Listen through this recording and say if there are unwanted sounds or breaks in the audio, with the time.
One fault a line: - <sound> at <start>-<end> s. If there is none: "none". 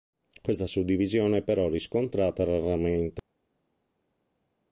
none